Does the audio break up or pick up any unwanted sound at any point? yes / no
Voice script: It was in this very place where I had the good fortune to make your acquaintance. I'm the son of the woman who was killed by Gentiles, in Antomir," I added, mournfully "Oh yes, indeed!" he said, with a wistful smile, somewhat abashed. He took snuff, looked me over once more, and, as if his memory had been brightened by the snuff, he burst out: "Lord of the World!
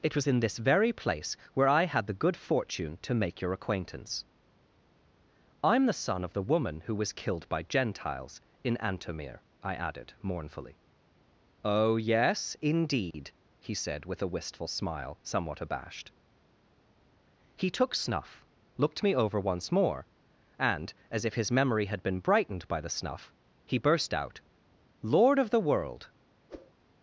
yes